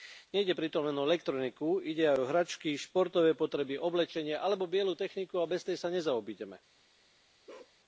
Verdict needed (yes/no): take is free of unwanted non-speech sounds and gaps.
no